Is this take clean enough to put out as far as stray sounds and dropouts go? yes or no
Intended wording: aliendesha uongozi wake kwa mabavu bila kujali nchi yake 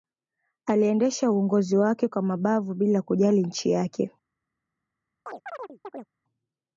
no